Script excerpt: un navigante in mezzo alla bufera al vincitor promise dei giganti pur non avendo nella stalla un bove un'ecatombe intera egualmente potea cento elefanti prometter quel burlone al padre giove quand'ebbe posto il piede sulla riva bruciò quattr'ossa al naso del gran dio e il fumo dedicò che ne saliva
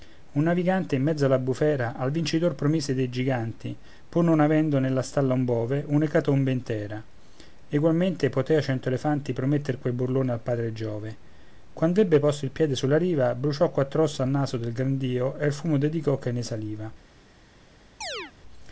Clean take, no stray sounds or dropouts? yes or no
no